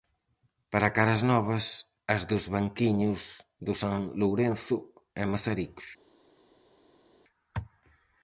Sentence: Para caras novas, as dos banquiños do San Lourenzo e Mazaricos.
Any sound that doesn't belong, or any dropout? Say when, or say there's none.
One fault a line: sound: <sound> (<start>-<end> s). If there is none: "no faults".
no faults